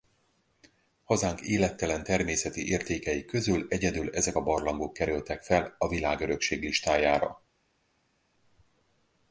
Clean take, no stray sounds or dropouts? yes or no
yes